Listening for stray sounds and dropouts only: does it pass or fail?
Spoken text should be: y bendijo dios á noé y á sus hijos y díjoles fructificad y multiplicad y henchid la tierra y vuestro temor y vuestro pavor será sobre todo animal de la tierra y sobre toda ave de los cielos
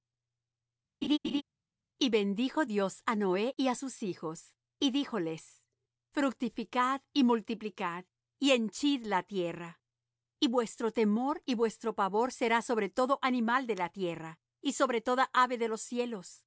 fail